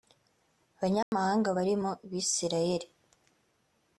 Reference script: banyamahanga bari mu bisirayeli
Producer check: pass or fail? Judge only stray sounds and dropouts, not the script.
fail